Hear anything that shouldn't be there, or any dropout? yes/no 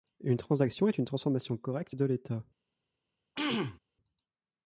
yes